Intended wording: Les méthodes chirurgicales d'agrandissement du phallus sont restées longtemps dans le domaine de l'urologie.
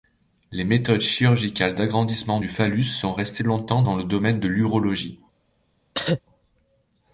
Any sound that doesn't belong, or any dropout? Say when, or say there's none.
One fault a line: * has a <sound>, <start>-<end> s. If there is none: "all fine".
* has a cough, 5.9-6.2 s